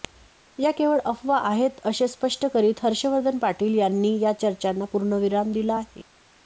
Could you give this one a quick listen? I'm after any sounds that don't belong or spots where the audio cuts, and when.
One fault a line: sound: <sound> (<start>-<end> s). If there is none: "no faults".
no faults